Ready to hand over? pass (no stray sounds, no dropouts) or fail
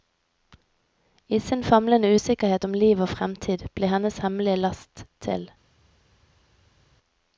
pass